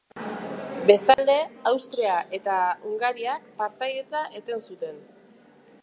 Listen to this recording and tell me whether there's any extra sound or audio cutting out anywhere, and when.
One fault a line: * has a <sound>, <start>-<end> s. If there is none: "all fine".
* has a dropout, 1.1-1.2 s